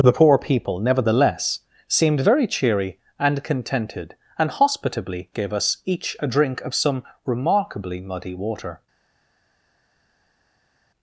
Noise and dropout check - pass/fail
pass